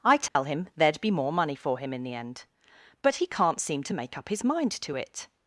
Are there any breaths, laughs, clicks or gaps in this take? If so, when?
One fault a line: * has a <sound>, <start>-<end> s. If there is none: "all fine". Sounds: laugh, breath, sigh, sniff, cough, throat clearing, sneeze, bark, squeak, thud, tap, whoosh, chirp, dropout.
* has a dropout, 0.3-0.4 s